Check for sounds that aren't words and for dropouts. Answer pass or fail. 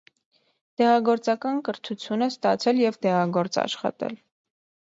pass